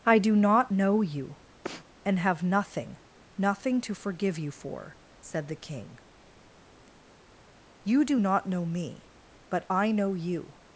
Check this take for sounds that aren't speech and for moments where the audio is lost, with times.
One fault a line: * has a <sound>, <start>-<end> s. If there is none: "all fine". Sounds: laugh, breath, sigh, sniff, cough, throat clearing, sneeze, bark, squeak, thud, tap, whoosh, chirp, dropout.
* has a sneeze, 1.6-1.8 s